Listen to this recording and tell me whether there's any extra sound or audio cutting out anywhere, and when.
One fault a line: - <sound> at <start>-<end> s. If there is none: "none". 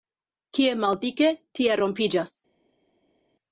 none